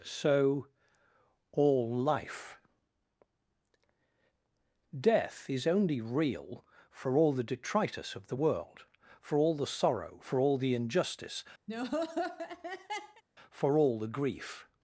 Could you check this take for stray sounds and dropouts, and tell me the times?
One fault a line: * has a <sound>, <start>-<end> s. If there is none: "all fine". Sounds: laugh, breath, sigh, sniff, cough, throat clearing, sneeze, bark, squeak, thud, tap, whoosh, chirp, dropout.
* has a laugh, 11.7-13.2 s